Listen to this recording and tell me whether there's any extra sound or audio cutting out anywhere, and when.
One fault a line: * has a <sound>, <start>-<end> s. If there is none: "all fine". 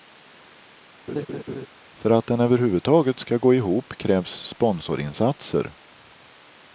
* has a laugh, 1.1-1.7 s